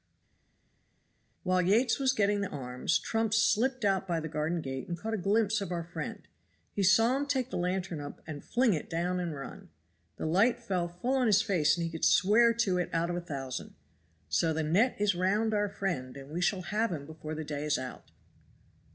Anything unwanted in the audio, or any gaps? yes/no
no